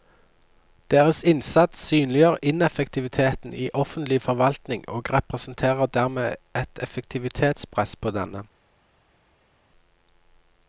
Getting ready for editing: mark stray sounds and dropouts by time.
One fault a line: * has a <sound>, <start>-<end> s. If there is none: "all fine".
all fine